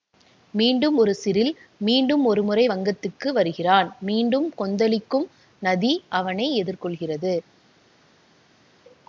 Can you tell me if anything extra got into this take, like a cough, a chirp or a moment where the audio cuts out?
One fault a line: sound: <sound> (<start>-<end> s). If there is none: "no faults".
no faults